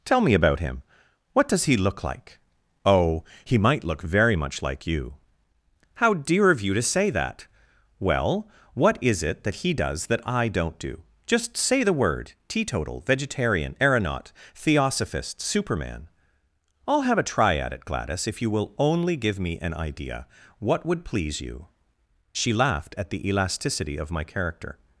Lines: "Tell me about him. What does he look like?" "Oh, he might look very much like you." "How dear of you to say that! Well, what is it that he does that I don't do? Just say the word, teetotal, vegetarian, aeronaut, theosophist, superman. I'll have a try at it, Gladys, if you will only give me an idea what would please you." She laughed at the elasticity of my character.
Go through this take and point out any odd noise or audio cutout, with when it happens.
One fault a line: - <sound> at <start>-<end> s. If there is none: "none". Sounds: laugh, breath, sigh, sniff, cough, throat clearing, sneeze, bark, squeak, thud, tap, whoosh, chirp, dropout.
none